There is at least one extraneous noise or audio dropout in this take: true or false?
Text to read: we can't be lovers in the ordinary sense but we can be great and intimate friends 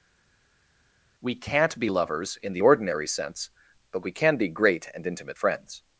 false